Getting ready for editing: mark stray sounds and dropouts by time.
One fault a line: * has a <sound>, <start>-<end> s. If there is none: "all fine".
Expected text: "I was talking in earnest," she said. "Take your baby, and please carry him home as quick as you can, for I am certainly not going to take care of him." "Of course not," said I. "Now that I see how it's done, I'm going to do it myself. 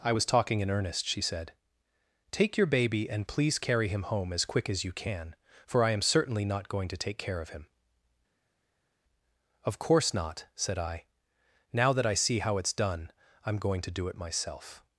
all fine